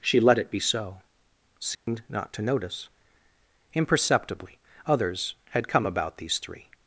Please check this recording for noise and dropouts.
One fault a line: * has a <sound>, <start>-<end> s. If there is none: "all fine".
* has a dropout, 1.7-1.9 s